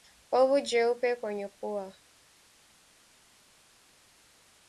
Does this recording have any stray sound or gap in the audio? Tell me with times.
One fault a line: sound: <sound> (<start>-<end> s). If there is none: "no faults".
no faults